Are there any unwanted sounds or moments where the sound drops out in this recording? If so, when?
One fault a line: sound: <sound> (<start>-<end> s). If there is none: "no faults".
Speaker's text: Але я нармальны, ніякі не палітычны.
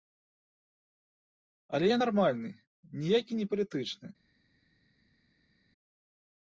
no faults